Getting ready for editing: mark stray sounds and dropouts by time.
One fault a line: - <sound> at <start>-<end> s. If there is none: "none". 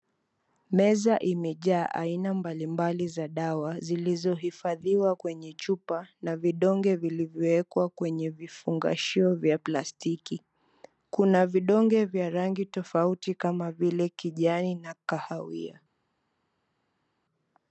none